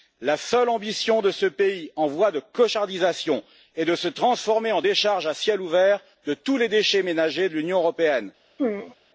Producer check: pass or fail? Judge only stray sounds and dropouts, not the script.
fail